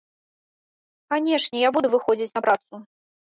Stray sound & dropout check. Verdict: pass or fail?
pass